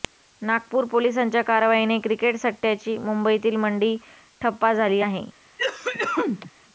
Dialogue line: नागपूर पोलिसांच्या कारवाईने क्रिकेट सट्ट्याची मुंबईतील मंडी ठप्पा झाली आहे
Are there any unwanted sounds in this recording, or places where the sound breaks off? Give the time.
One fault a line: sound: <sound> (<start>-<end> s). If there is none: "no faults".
sound: cough (5.6-6.5 s)